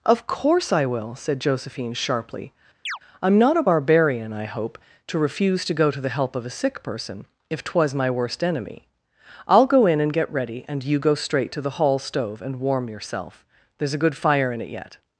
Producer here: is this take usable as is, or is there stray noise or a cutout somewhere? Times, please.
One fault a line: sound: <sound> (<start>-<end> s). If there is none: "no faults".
sound: chirp (2.9-3.0 s)